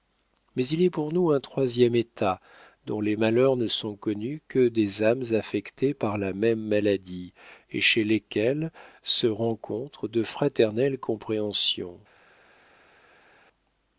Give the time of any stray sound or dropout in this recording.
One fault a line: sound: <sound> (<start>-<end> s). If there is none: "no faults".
no faults